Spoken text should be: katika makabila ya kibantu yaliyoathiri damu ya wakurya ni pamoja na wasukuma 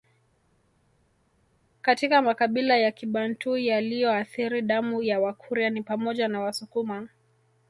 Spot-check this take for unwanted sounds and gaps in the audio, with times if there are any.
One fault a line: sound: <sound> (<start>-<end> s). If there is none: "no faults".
no faults